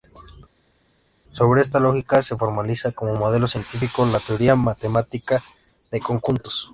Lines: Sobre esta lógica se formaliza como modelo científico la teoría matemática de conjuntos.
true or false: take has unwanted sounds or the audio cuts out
false